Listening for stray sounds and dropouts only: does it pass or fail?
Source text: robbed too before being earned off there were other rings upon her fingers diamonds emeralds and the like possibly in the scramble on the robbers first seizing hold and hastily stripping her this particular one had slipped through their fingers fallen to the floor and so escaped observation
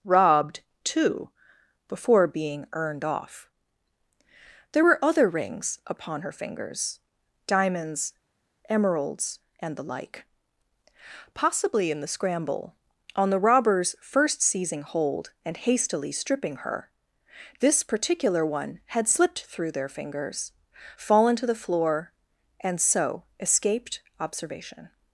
pass